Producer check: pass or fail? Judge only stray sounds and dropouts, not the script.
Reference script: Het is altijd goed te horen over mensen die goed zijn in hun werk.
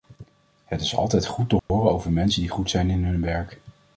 fail